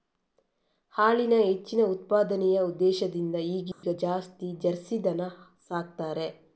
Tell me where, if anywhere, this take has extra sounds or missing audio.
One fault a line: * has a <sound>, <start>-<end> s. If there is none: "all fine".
* has a dropout, 3.7-3.8 s